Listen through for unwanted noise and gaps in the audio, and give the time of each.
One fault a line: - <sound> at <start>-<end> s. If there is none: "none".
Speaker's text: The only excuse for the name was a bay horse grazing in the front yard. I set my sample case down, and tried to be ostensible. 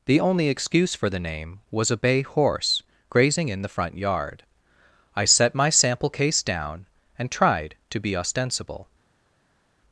none